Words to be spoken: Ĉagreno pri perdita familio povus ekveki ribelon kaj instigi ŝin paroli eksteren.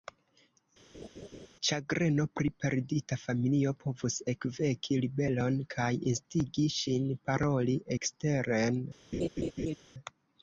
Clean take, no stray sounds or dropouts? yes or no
no